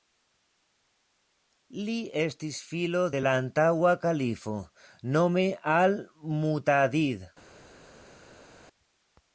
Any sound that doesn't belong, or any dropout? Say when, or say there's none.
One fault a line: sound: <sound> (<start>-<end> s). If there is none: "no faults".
no faults